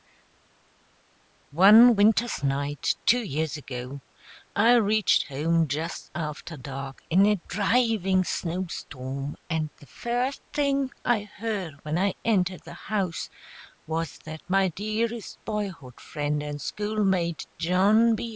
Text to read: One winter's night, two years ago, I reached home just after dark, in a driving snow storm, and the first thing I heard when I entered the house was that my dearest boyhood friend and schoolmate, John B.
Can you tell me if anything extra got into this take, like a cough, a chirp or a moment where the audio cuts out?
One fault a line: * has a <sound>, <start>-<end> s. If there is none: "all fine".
all fine